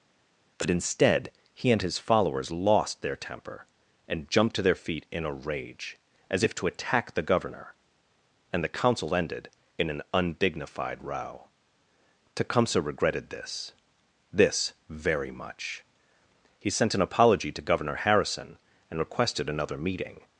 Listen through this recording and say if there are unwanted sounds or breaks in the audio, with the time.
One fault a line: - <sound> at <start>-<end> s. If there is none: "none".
none